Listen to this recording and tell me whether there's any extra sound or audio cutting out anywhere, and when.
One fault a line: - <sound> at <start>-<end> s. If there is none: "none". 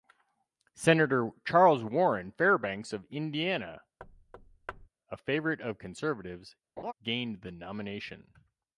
- thud at 4.0-4.9 s
- laugh at 6.8-6.9 s